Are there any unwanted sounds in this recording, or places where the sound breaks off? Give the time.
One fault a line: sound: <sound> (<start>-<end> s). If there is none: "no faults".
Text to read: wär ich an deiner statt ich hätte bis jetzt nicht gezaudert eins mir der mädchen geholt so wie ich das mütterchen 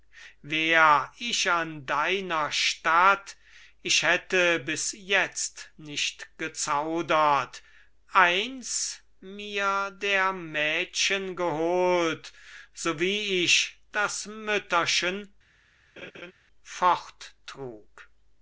sound: laugh (16.0-16.3 s)